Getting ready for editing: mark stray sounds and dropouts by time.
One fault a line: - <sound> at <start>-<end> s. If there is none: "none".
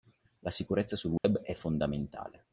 - dropout at 1.2-1.2 s